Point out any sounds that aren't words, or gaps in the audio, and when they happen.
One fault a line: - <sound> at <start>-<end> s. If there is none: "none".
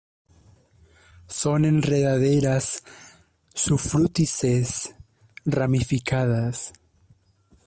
none